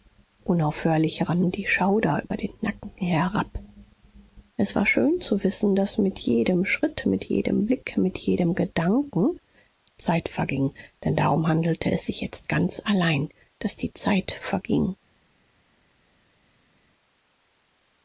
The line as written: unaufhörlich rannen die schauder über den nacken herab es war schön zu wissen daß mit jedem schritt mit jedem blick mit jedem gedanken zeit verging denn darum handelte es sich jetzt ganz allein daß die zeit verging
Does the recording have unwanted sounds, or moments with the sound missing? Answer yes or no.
no